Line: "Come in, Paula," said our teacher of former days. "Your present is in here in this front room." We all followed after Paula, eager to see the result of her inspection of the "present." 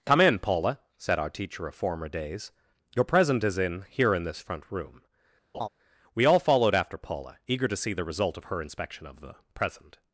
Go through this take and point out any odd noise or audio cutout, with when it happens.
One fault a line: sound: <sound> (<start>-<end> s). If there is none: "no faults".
sound: laugh (5.5-5.7 s)